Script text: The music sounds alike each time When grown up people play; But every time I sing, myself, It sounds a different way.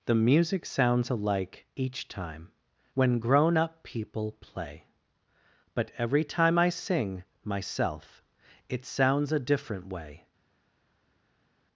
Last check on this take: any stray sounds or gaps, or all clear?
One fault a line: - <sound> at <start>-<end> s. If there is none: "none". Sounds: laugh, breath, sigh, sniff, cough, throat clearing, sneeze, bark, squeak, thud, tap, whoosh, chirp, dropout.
none